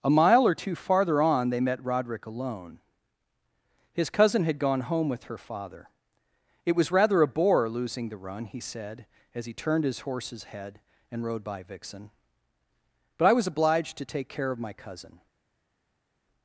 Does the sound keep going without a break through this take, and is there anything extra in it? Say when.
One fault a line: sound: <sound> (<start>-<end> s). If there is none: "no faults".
no faults